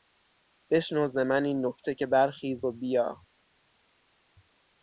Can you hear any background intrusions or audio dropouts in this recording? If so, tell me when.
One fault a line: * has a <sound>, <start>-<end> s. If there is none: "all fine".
all fine